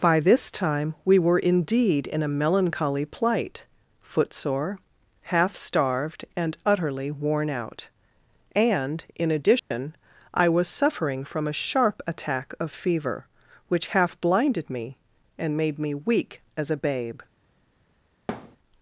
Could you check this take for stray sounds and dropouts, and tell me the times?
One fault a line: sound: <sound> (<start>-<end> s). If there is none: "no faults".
sound: dropout (9.6-9.7 s)
sound: thud (18.3-18.6 s)